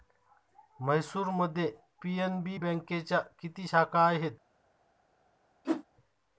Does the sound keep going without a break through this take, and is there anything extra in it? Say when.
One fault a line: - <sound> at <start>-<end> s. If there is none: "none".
- whoosh at 5.6-5.8 s